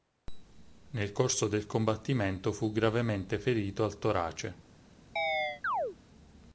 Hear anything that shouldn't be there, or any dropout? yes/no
yes